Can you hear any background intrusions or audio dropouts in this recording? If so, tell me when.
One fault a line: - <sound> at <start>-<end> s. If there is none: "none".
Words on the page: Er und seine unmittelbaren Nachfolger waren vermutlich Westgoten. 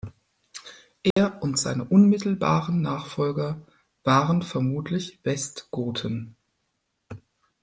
- dropout at 1.1-1.2 s